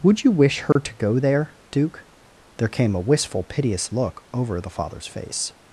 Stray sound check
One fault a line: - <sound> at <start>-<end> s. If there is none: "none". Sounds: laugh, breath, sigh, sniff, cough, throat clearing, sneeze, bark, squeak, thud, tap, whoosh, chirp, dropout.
- dropout at 0.7-0.8 s